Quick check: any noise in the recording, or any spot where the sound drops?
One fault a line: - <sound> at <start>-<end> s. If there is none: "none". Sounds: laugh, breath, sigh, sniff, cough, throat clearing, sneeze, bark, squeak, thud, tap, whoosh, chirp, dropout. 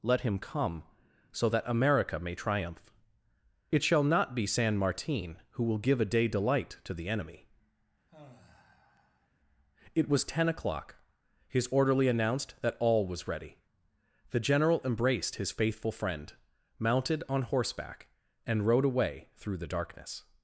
- sigh at 8.1-9.3 s